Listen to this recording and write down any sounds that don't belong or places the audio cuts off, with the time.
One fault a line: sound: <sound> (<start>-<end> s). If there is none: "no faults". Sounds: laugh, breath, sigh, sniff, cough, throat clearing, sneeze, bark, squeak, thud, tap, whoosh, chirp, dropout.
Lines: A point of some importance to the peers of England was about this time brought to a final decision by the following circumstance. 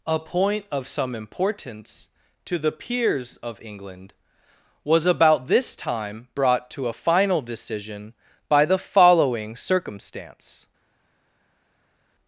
no faults